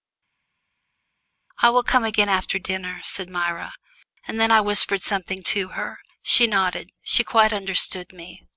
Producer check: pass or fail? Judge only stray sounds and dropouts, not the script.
pass